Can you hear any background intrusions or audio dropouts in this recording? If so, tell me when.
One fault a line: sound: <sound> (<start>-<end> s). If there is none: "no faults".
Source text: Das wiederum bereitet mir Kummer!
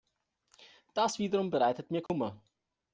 sound: dropout (2.1-2.1 s)